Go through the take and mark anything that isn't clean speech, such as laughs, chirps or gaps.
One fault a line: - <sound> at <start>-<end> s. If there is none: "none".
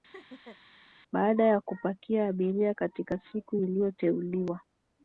- laugh at 0.1-0.6 s